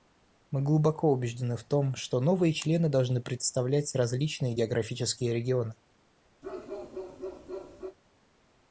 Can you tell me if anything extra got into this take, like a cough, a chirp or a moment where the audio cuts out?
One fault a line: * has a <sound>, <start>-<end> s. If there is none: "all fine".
* has a bark, 6.4-8.0 s